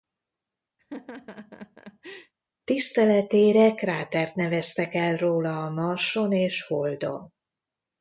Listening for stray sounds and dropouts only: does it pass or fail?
fail